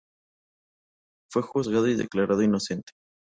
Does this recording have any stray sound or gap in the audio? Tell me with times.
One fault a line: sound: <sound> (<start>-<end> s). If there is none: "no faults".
no faults